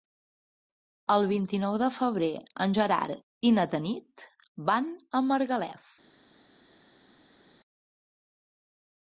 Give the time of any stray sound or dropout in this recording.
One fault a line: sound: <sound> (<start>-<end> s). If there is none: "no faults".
no faults